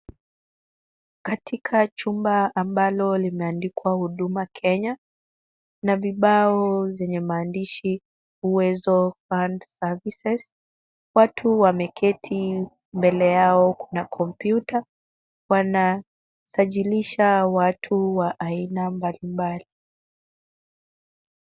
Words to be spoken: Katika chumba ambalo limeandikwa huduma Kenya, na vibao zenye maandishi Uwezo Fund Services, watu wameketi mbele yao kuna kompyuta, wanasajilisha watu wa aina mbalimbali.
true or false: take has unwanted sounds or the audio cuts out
false